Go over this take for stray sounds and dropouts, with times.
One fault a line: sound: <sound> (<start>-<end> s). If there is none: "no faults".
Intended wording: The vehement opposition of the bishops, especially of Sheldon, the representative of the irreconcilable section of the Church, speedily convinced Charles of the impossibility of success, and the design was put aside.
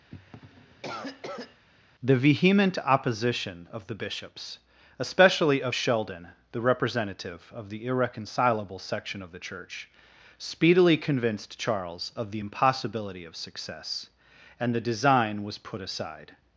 sound: cough (0.1-1.6 s)